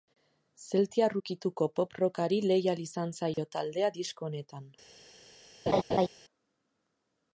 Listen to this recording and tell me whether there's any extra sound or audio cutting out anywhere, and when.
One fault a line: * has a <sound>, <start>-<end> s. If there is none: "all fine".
* has a dropout, 3.3-3.4 s
* has a laugh, 5.7-6.1 s